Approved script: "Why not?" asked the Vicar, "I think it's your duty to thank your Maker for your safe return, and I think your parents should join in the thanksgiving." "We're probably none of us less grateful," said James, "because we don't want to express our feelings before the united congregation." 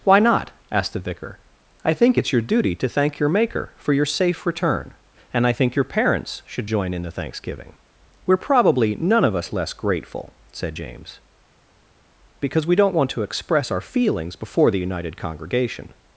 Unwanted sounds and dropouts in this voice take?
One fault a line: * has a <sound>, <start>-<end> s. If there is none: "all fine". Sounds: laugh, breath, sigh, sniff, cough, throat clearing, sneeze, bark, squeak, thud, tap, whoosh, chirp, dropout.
all fine